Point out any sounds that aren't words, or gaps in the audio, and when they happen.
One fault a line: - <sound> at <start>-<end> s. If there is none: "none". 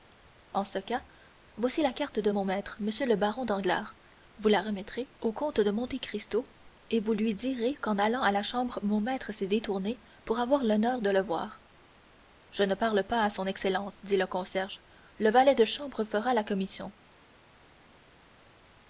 none